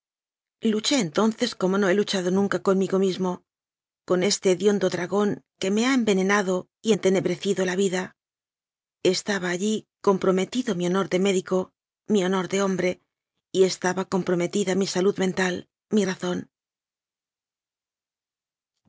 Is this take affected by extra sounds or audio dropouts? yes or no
no